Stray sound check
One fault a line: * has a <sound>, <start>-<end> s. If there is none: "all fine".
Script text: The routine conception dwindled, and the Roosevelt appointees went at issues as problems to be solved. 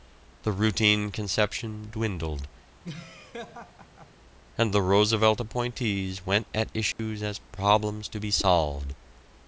* has a laugh, 2.8-4.1 s
* has a dropout, 6.9-7.0 s